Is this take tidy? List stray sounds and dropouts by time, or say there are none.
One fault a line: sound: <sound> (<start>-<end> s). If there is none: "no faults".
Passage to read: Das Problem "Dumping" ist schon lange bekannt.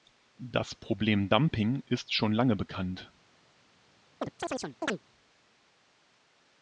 sound: chirp (4.2-5.0 s)